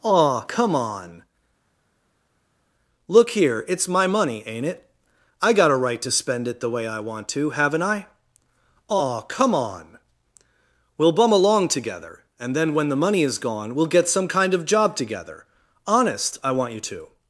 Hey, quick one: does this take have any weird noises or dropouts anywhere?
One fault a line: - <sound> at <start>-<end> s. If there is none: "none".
none